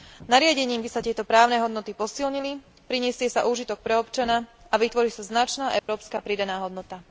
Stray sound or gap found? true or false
true